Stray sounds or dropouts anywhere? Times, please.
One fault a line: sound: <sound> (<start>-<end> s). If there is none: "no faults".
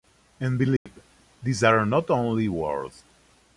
sound: dropout (0.8-0.9 s)